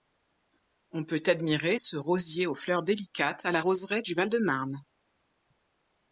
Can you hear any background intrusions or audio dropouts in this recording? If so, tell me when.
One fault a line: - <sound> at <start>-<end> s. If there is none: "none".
none